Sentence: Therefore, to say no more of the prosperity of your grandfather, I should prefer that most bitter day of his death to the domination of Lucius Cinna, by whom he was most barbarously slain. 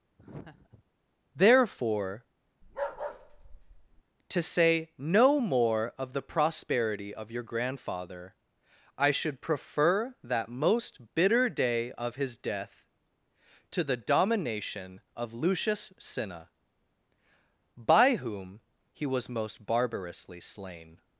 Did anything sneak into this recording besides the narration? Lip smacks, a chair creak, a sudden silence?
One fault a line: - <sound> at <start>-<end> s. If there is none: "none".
- laugh at 0.2-0.8 s
- bark at 2.6-4.0 s